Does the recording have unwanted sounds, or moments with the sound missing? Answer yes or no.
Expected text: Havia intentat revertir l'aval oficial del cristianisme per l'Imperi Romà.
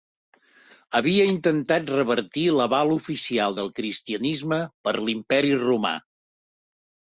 no